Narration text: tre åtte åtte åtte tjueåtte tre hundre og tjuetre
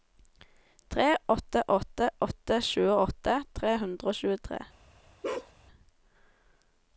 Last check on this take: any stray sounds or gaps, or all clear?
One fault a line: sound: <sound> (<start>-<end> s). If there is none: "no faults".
sound: bark (5.2-5.5 s)